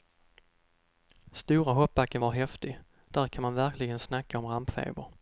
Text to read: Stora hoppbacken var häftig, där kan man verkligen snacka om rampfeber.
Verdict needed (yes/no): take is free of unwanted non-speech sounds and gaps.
yes